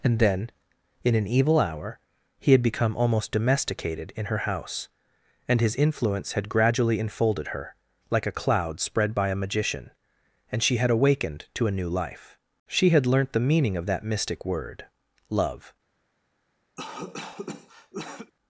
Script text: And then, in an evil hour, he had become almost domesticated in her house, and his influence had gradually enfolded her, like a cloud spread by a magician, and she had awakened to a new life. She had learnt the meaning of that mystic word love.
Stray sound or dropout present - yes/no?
yes